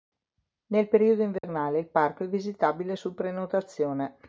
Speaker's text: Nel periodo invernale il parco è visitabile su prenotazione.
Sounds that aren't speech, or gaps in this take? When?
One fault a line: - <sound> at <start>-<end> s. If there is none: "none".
- dropout at 1.4-1.4 s